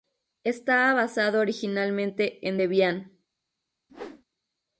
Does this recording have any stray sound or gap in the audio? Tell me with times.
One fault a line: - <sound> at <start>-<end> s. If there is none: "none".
- whoosh at 3.9-4.2 s